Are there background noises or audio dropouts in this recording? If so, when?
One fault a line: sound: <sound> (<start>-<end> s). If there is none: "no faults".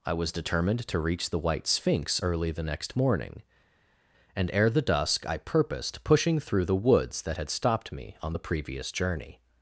no faults